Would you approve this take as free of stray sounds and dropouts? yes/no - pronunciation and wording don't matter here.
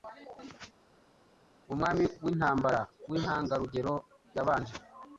yes